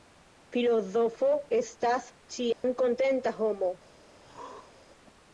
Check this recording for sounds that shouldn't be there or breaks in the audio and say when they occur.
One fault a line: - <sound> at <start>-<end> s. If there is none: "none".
- dropout at 2.5-2.6 s
- throat clearing at 4.2-4.8 s